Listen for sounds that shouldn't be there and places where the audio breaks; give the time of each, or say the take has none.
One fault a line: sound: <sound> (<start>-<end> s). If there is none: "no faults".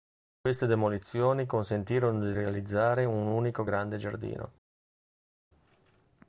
no faults